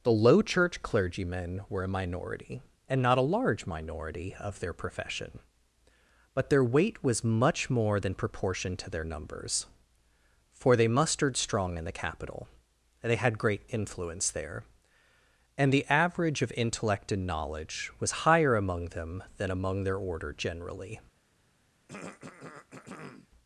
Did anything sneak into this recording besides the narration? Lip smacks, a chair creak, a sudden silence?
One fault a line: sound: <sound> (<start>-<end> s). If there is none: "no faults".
sound: throat clearing (21.9-23.3 s)